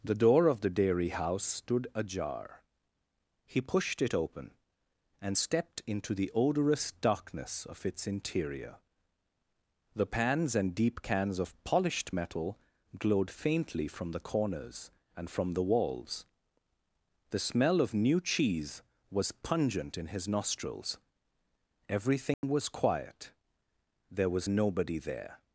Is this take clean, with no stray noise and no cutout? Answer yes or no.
no